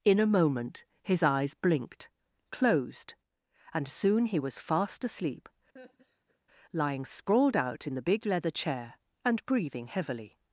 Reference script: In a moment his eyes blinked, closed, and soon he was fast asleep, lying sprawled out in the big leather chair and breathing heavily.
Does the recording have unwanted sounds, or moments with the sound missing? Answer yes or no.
yes